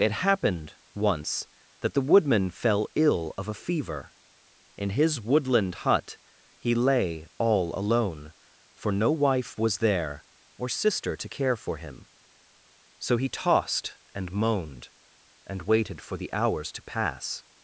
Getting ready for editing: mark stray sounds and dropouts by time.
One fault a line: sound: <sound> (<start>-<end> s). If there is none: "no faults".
no faults